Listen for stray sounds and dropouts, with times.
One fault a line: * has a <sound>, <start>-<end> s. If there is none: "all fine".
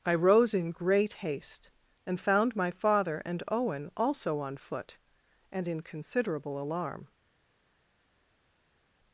all fine